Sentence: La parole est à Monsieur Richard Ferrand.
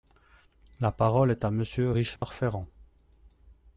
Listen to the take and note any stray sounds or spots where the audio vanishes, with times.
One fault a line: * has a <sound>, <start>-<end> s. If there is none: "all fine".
* has a dropout, 2.2-2.2 s